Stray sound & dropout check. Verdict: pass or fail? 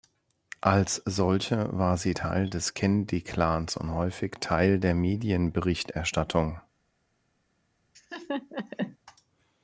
fail